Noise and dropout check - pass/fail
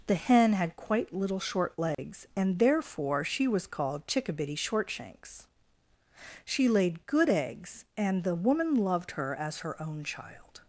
fail